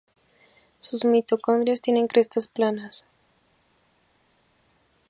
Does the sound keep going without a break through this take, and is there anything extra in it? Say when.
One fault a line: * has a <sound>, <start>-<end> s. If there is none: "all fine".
all fine